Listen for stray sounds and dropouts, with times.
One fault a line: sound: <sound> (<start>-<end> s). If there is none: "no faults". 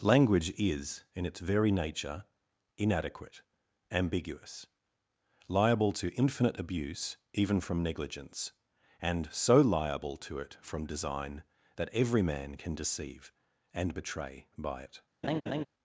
sound: laugh (15.2-15.7 s)